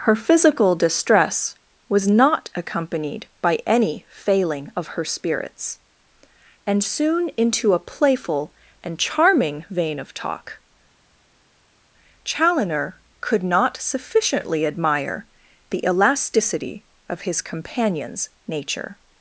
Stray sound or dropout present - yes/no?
no